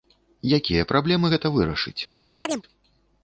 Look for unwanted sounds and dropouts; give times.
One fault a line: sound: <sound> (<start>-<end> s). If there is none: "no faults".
sound: chirp (2.4-2.6 s)